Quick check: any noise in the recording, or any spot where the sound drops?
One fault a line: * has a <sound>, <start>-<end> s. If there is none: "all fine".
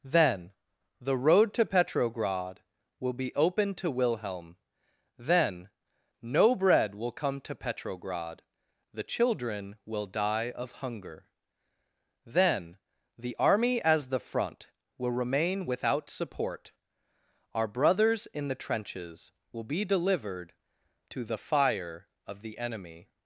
all fine